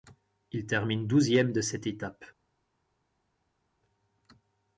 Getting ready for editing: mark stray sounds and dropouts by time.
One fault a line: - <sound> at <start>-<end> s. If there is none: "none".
none